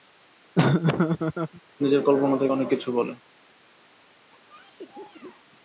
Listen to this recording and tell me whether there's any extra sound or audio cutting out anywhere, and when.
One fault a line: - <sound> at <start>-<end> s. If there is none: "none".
- laugh at 0.6-1.6 s
- cough at 4.3-5.5 s